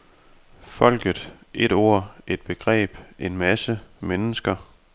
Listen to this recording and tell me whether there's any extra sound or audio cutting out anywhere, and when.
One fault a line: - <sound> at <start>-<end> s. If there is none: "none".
none